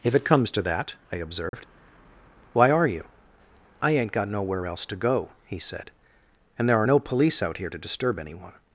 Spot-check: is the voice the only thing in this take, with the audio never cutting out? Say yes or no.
no